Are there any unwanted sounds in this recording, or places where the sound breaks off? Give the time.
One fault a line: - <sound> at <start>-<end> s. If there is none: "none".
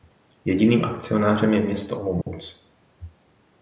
- dropout at 2.2-2.3 s